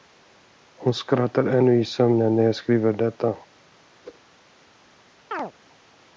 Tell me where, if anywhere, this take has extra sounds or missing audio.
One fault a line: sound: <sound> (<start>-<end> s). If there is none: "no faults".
sound: whoosh (4.0-4.2 s)
sound: chirp (5.3-5.5 s)